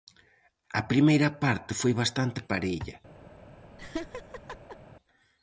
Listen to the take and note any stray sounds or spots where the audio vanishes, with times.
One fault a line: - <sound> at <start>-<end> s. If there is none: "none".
- laugh at 3.8-4.8 s